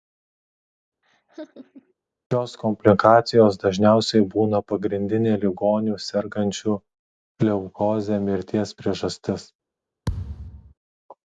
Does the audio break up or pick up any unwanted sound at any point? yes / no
yes